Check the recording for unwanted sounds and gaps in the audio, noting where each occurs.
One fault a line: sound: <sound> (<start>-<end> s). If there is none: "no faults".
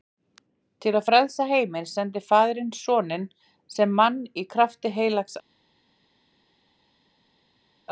no faults